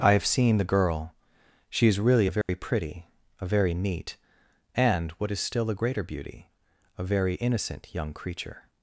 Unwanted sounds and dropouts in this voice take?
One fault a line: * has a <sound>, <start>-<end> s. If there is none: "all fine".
* has a dropout, 2.4-2.5 s